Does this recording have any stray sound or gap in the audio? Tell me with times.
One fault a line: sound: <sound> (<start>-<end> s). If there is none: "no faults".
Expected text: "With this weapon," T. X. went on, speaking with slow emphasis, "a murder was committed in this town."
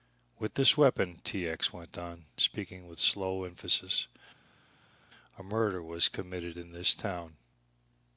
no faults